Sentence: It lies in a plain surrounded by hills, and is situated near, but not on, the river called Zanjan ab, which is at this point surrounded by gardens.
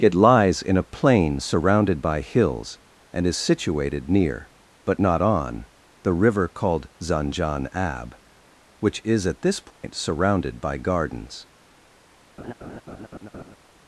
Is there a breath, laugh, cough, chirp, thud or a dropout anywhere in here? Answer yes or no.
yes